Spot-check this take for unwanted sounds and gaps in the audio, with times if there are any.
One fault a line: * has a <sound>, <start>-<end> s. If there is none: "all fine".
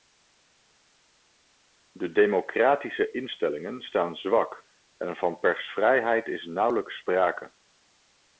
all fine